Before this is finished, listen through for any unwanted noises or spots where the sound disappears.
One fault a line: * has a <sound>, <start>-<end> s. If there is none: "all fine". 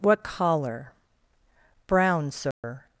* has a dropout, 2.5-2.6 s